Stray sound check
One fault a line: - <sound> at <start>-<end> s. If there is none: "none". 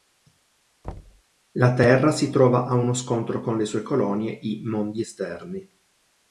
- thud at 0.8-1.2 s